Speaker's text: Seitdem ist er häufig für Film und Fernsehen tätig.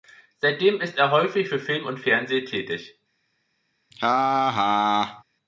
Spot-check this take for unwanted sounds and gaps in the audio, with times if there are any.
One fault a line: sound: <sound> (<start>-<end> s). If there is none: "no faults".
sound: laugh (3.9-5.2 s)